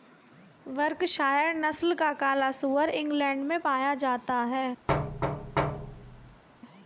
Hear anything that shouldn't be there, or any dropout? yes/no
yes